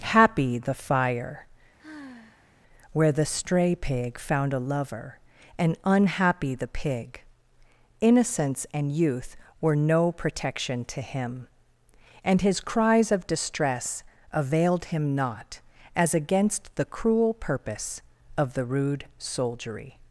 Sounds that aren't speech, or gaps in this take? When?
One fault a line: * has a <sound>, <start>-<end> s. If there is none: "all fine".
* has a sigh, 1.8-2.5 s